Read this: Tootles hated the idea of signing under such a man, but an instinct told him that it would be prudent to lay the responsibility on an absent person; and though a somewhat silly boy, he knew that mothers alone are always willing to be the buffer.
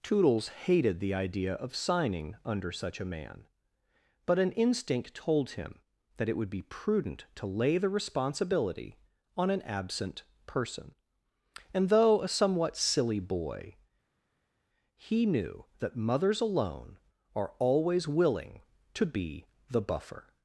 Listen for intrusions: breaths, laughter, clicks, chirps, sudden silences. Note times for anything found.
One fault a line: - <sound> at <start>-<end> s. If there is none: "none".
none